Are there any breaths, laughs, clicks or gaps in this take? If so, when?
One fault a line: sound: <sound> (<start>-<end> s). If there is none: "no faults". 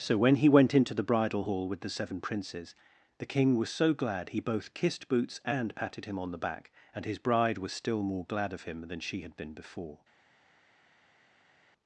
no faults